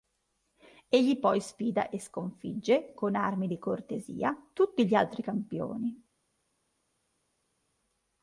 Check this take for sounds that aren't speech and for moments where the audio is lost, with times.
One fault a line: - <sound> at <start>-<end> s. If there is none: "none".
none